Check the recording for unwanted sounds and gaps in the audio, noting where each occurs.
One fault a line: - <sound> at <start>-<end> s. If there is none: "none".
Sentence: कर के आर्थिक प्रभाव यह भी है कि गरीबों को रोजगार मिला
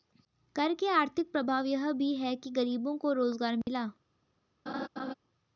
- dropout at 3.6-3.7 s
- laugh at 4.7-5.1 s